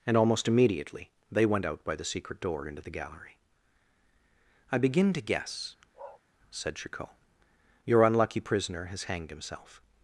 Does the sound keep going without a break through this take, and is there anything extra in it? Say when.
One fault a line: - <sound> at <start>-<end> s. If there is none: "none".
- bark at 5.9-6.2 s